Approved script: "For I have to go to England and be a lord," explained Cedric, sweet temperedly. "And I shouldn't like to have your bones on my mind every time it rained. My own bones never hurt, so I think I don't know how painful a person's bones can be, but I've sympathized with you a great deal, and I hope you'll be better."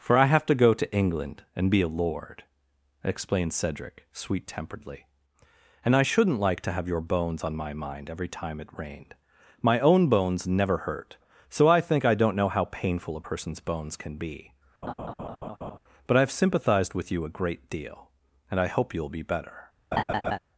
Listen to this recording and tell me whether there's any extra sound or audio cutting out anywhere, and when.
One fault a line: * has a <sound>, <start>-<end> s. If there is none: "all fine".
* has a laugh, 14.8-15.8 s
* has a laugh, 19.9-20.4 s